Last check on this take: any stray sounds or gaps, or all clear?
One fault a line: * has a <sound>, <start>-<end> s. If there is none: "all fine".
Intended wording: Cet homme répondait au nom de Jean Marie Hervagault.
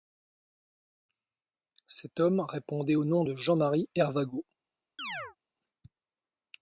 * has a chirp, 5.0-5.4 s